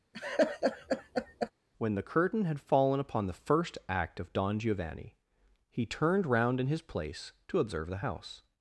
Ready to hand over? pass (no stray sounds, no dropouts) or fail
fail